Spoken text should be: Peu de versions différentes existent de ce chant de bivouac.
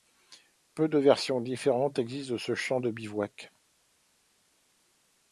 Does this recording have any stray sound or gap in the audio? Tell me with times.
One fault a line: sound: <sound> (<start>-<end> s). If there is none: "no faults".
no faults